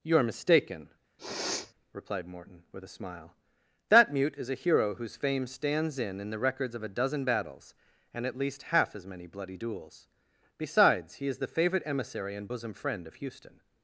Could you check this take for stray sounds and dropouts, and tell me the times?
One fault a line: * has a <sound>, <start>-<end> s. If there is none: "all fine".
* has a sniff, 1.2-1.7 s